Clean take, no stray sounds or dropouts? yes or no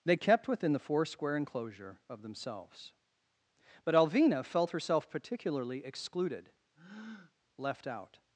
no